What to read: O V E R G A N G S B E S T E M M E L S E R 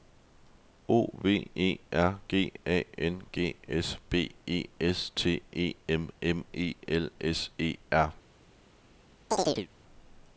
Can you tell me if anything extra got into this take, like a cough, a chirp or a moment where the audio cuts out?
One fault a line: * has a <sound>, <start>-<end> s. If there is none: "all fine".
* has a chirp, 9.3-9.7 s